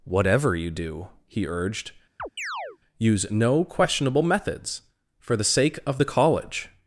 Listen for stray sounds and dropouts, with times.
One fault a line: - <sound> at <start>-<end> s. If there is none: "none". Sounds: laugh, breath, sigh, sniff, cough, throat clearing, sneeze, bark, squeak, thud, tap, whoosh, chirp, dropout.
- chirp at 2.2-2.8 s